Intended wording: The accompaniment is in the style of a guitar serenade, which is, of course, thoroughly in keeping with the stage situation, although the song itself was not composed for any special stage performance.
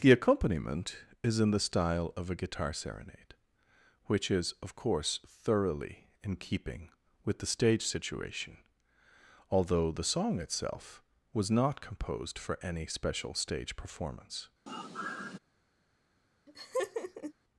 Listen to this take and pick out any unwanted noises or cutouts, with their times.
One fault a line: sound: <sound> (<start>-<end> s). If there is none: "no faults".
sound: sigh (14.7-15.4 s)
sound: laugh (16.5-17.3 s)